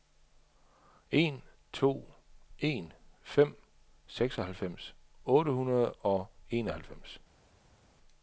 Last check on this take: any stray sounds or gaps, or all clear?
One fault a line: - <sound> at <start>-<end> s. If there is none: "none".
none